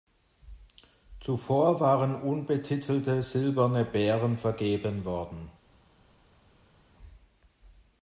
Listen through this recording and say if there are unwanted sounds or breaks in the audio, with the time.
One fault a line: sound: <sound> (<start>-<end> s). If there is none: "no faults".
no faults